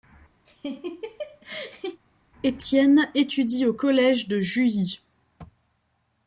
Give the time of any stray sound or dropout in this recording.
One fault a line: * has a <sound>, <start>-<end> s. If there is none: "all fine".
* has a laugh, 0.5-2.0 s